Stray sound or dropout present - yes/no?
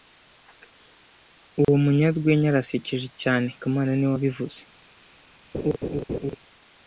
yes